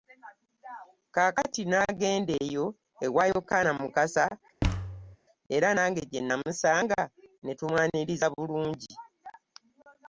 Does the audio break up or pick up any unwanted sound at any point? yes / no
yes